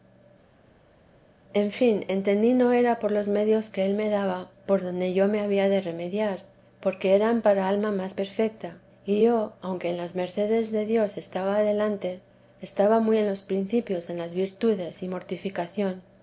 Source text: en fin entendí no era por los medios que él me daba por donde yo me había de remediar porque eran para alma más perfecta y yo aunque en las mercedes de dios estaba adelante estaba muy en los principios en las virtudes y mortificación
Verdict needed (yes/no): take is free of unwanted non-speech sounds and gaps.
yes